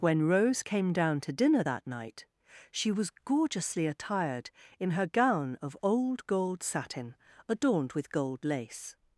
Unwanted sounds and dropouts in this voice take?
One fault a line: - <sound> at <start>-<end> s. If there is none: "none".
none